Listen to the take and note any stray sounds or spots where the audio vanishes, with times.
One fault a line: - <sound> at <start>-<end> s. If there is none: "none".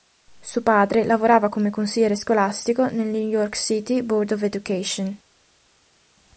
none